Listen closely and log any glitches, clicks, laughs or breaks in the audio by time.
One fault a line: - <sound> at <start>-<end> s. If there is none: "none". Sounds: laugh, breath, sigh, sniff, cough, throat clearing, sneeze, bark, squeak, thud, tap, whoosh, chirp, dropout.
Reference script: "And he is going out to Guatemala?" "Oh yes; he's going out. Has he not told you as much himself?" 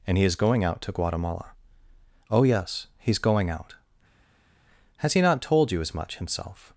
none